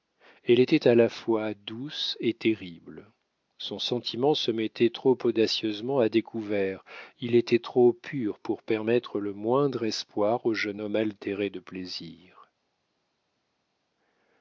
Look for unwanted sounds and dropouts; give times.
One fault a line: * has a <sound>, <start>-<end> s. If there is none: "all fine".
all fine